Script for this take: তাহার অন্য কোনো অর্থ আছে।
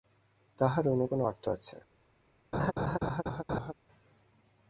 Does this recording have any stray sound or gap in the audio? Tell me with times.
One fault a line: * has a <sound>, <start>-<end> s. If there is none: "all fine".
* has a laugh, 2.5-3.7 s